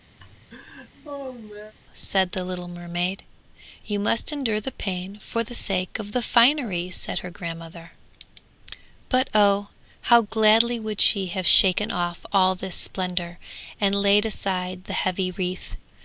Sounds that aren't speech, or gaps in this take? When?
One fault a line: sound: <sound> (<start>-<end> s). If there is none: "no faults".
sound: laugh (0.2-1.7 s)